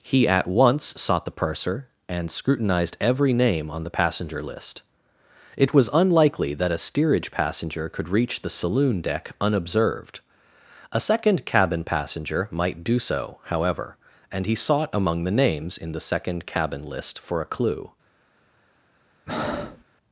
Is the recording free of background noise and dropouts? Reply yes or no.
no